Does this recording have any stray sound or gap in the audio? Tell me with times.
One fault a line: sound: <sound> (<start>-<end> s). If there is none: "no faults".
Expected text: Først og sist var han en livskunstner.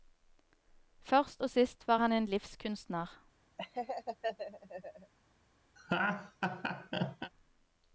sound: laugh (3.6-5.1 s)
sound: laugh (5.8-7.3 s)